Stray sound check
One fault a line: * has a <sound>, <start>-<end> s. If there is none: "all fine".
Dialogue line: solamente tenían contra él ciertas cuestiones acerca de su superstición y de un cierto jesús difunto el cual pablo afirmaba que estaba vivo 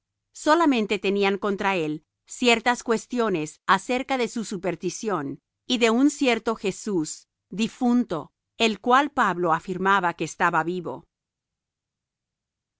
all fine